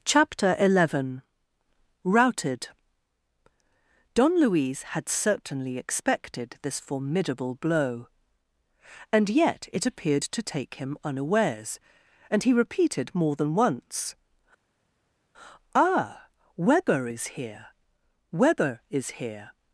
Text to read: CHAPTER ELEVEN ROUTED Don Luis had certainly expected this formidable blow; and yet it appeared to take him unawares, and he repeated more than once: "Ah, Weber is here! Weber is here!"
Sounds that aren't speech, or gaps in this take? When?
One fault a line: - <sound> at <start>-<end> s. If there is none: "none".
none